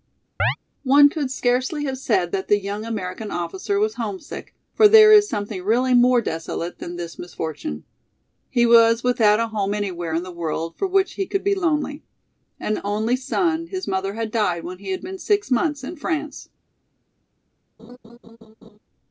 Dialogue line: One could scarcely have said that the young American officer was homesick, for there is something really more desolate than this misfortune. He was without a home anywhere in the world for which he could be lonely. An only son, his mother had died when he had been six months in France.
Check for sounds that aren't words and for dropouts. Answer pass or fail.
fail